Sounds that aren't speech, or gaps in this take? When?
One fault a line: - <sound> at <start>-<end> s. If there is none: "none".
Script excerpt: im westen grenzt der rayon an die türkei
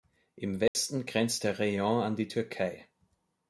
- dropout at 0.7-0.7 s